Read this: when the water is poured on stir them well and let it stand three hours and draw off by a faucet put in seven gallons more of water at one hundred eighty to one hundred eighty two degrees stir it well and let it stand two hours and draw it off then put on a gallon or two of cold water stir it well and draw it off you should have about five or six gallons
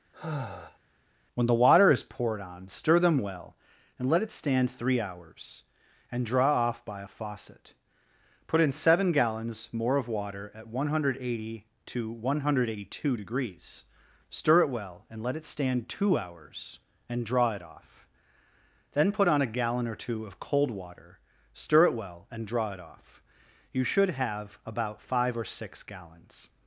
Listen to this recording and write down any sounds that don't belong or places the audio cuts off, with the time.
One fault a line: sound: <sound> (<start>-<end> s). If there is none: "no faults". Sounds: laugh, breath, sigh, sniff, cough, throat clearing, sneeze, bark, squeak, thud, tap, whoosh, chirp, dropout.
sound: sigh (0.1-0.8 s)